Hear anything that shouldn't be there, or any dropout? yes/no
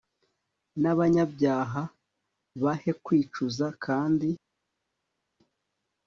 no